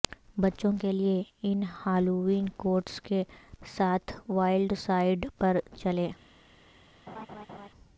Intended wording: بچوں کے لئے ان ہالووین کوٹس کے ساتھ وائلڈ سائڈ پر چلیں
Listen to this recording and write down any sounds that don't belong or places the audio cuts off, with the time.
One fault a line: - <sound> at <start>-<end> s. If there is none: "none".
- laugh at 7.1-7.7 s